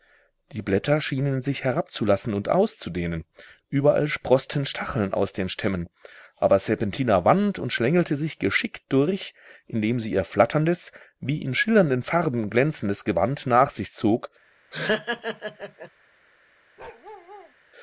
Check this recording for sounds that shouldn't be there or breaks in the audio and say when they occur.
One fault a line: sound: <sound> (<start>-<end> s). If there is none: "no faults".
sound: laugh (14.7-15.9 s)
sound: bark (16.8-17.5 s)